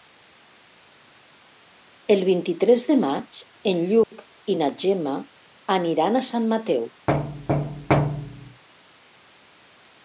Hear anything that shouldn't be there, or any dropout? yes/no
yes